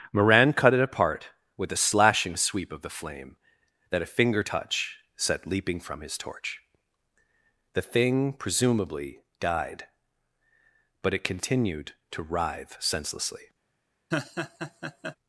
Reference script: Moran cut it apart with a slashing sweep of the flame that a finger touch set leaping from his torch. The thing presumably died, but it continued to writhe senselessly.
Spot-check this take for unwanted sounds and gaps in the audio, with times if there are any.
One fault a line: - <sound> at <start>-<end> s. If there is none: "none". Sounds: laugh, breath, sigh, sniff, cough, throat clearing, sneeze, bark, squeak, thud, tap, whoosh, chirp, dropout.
- laugh at 14.1-15.2 s